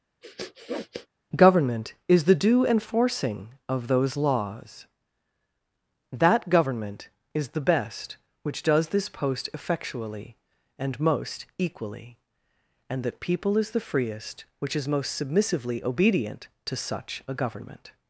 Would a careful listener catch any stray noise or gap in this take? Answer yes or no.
yes